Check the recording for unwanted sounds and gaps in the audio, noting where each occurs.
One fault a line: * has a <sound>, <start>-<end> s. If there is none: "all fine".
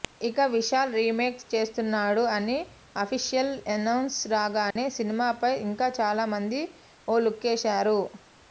* has a dropout, 4.7-4.8 s